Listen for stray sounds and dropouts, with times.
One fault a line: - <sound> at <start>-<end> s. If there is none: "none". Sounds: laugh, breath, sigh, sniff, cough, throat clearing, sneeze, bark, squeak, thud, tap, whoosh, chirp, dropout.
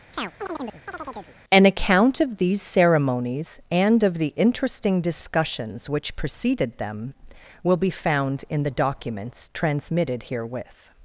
- chirp at 0.1-1.4 s